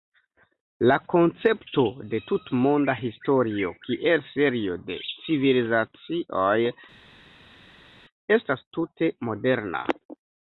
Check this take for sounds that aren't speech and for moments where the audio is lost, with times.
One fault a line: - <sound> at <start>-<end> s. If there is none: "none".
none